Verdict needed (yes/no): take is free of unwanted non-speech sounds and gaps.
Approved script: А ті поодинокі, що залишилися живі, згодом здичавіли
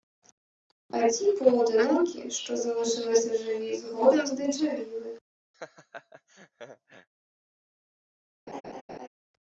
no